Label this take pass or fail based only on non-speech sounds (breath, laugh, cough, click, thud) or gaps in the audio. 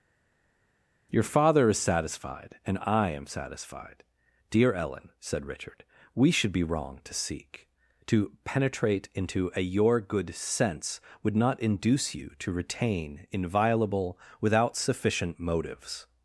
pass